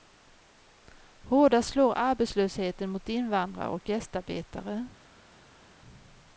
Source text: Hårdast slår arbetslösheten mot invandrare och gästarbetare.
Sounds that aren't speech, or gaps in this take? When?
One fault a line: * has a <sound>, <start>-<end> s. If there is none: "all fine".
all fine